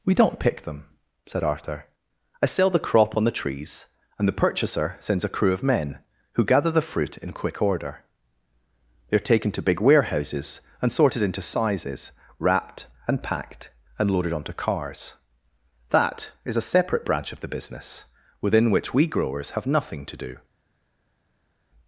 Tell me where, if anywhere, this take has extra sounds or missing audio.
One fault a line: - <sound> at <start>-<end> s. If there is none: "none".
none